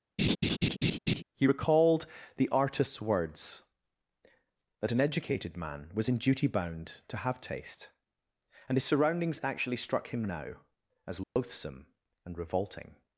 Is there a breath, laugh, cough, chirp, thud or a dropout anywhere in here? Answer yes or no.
yes